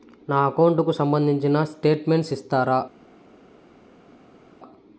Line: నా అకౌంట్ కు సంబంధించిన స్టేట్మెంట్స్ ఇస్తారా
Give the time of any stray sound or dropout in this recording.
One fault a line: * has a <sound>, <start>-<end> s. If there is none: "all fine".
all fine